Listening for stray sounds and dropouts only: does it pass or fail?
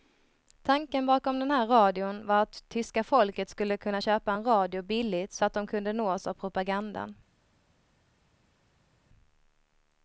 pass